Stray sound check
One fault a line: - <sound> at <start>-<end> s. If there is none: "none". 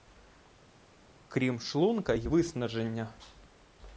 none